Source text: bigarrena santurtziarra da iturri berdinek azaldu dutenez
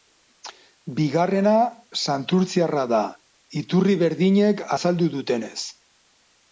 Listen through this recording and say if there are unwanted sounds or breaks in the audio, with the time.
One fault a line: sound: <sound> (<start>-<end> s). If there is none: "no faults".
no faults